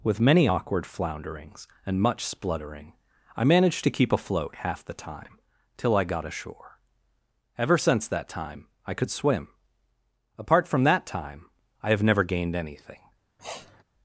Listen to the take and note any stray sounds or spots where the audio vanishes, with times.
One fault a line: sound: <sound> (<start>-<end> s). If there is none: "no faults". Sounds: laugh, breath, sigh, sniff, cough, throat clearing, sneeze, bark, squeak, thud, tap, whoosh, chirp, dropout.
sound: sniff (13.4-13.8 s)